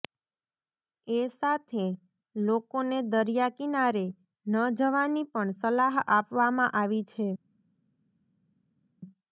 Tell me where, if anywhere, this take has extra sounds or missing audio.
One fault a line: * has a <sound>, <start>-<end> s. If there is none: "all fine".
all fine